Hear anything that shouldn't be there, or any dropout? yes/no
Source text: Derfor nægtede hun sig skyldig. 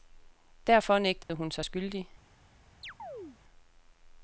yes